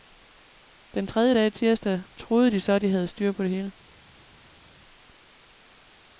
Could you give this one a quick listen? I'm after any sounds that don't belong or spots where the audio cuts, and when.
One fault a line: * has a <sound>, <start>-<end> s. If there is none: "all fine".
all fine